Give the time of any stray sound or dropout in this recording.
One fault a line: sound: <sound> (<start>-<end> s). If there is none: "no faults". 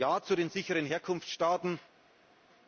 no faults